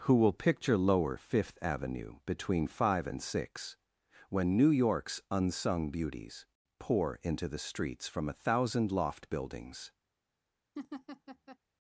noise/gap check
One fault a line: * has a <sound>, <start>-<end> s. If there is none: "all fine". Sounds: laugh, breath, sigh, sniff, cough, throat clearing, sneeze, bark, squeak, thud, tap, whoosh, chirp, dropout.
* has a laugh, 10.8-11.6 s